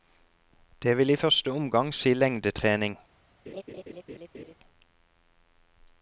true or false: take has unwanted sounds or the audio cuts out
true